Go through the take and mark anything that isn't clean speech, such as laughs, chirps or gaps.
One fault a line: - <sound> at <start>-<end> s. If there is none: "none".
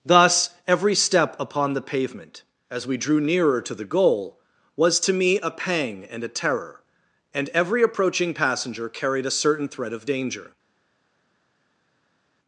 none